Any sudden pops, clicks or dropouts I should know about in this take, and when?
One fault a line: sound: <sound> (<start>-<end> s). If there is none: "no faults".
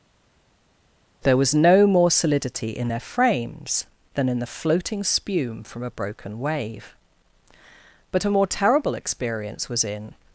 no faults